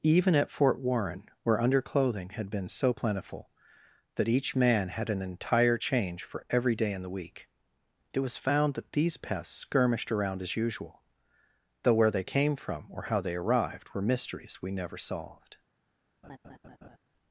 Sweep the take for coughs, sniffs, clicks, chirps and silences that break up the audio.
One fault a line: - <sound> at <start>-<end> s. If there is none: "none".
- laugh at 16.2-17.0 s